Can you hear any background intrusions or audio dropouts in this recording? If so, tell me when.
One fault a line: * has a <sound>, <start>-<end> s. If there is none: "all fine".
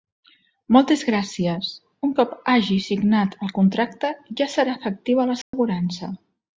* has a dropout, 5.4-5.5 s